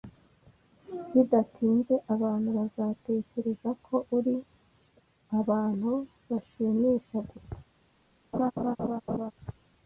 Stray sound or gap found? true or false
true